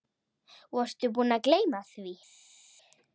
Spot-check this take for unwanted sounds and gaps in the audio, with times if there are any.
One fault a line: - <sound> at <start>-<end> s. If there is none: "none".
none